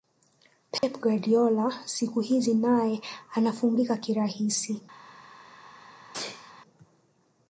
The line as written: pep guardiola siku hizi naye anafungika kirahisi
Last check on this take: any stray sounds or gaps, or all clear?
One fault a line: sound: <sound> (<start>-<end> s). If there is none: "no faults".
sound: dropout (0.8-0.8 s)
sound: sneeze (6.1-6.5 s)